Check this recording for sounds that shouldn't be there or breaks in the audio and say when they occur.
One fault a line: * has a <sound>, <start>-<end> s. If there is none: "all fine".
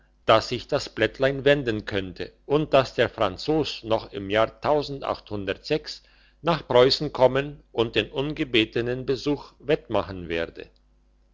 all fine